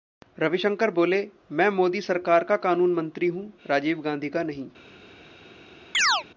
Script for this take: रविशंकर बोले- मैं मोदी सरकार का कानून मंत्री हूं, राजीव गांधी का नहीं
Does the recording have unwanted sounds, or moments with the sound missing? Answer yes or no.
yes